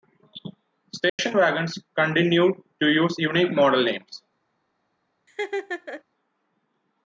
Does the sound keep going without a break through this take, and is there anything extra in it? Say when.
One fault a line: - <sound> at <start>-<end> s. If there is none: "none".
- dropout at 1.1-1.2 s
- laugh at 5.3-6.0 s